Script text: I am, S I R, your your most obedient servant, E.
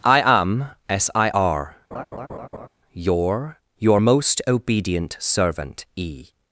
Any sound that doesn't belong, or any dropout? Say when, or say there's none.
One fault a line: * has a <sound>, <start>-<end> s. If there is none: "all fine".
* has a laugh, 1.9-2.7 s